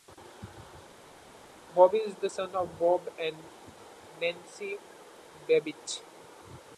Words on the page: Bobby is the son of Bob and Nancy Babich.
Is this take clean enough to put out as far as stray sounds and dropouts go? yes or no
yes